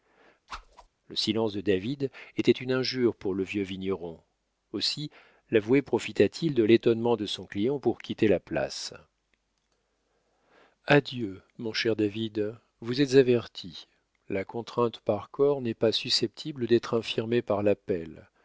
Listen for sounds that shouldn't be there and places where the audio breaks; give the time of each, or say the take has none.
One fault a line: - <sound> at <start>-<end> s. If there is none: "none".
- whoosh at 0.5-0.9 s